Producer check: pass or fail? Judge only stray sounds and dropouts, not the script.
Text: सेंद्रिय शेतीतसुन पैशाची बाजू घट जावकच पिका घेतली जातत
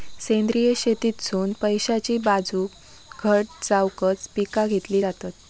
pass